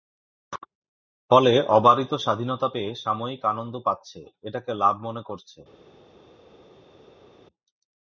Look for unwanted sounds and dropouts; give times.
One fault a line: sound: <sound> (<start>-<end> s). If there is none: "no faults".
no faults